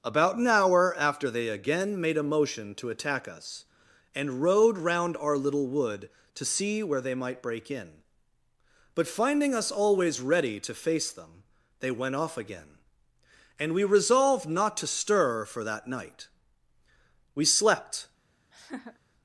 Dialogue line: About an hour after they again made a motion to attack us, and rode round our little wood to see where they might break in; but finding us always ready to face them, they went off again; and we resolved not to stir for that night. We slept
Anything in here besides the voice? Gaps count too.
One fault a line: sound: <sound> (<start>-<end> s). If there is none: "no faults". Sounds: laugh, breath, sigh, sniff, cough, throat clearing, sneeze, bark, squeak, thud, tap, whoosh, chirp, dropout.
sound: laugh (18.5-19.0 s)